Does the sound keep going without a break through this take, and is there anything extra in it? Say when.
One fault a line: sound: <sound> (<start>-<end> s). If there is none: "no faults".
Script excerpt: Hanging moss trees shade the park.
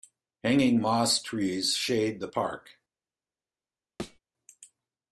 sound: thud (4.0-4.2 s)